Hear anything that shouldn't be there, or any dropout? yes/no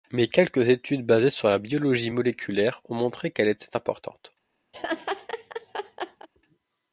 yes